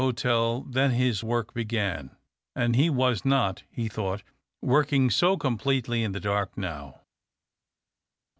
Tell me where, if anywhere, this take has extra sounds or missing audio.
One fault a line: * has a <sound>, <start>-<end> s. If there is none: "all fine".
all fine